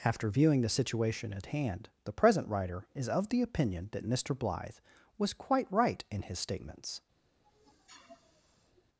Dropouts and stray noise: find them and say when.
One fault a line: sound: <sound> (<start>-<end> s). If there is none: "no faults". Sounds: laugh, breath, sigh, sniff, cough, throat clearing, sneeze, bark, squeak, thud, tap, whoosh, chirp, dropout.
sound: sniff (7.4-8.8 s)